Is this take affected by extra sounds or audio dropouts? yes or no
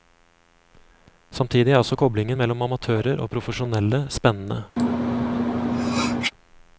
yes